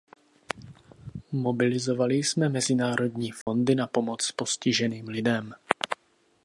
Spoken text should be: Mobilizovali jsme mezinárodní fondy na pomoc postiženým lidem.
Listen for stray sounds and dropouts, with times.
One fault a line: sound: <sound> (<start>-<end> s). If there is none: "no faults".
sound: dropout (3.4-3.5 s)